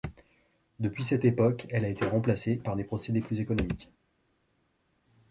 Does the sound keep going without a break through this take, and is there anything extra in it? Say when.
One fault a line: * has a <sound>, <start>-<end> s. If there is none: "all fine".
all fine